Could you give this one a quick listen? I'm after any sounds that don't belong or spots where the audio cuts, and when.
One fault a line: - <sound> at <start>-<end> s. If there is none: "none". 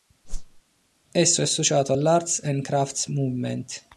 - whoosh at 0.2-0.6 s